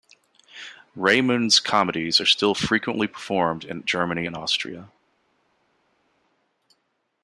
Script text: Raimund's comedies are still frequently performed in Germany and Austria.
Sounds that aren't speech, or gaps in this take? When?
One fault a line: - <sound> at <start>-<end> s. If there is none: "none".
none